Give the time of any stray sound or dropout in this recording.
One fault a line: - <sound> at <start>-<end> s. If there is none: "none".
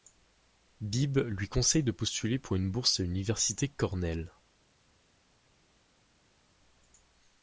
none